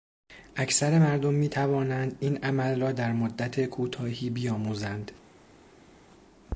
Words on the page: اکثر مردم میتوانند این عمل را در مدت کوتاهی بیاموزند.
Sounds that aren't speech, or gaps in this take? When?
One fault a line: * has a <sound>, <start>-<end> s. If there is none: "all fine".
all fine